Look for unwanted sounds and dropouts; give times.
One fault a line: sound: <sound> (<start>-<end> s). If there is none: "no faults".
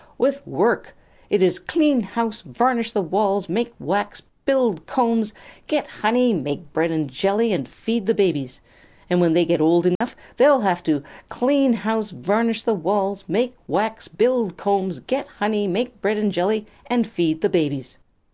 sound: dropout (10.0-10.0 s)